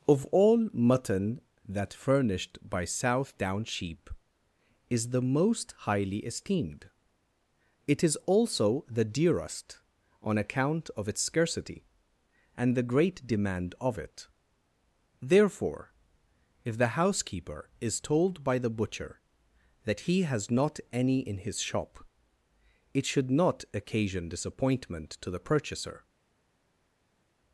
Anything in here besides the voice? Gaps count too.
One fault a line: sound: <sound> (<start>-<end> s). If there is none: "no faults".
no faults